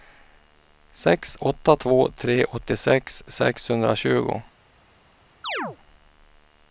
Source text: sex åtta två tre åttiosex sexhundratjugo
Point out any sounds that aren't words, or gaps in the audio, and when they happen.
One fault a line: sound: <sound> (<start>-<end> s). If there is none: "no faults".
sound: chirp (5.4-5.8 s)